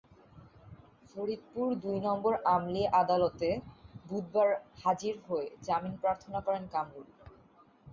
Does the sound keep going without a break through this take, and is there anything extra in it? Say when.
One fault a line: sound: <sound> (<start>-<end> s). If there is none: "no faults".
no faults